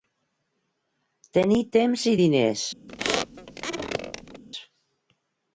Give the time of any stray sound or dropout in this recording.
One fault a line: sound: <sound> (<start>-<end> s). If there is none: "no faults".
sound: squeak (2.9-4.4 s)